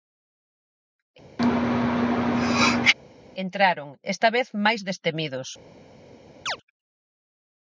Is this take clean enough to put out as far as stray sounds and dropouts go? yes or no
no